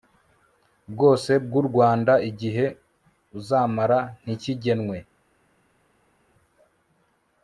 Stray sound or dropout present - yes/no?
no